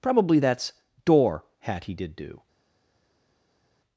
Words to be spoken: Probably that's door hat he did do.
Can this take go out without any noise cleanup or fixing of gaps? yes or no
yes